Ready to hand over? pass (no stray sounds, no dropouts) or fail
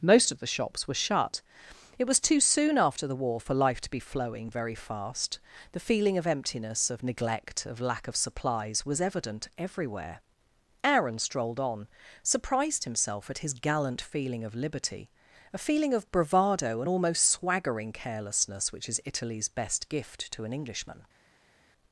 pass